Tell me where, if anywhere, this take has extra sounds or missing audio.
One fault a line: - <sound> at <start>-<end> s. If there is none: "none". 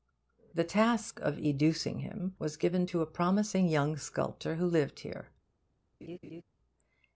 - laugh at 6.0-6.4 s